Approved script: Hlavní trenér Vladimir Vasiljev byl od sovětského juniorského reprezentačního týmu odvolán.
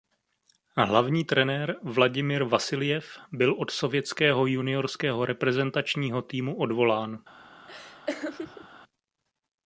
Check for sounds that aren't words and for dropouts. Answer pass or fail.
fail